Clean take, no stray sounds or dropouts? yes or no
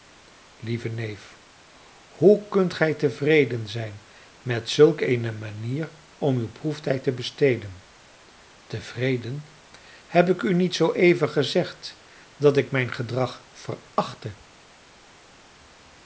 yes